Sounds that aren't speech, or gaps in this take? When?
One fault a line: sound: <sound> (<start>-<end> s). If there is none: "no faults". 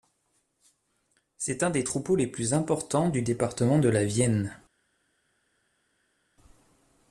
no faults